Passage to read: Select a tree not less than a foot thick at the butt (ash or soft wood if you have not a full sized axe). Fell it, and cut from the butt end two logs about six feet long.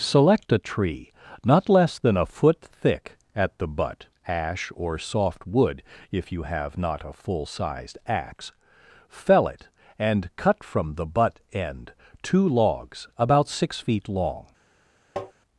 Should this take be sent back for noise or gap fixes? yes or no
yes